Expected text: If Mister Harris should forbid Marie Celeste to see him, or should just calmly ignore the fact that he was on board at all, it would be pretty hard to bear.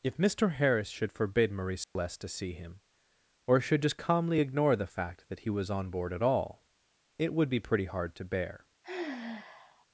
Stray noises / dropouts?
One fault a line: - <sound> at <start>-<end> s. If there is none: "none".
- dropout at 1.8-2.0 s
- sigh at 8.8-9.9 s